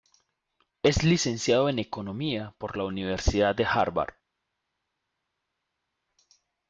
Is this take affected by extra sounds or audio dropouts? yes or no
no